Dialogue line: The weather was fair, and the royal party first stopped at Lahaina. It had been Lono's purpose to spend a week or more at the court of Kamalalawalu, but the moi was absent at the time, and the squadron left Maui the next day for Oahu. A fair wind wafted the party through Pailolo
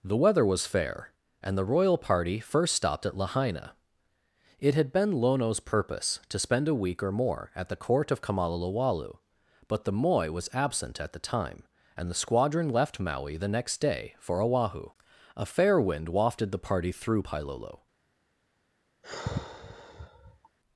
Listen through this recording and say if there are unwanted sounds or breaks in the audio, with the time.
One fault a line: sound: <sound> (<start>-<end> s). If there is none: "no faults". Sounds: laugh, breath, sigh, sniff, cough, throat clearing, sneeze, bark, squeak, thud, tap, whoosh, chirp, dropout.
sound: sigh (19.0-20.5 s)